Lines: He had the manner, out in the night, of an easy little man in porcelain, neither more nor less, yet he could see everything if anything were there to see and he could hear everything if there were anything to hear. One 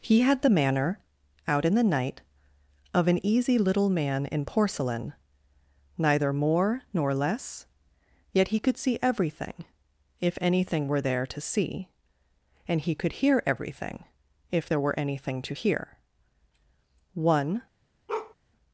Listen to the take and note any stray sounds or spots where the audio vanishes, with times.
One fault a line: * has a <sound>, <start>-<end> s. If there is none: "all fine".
* has a bark, 18.1-18.3 s